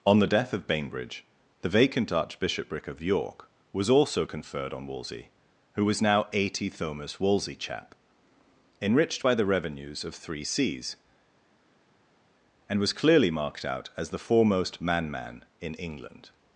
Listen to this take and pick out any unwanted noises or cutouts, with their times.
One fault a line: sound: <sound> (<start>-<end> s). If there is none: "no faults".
no faults